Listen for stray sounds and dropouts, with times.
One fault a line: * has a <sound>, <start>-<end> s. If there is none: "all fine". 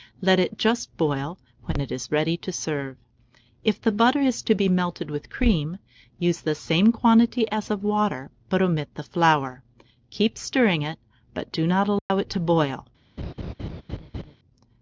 * has a dropout, 12.0-12.1 s
* has a laugh, 13.2-14.4 s